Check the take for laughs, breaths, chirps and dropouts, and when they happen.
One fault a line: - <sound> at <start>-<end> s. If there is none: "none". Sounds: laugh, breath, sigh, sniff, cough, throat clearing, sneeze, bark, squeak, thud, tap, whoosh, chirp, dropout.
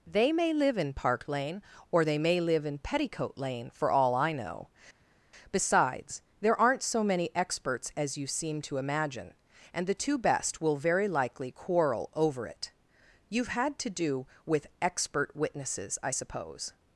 none